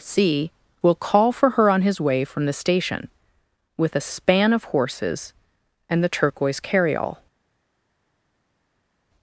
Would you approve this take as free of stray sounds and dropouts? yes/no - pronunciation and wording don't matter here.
yes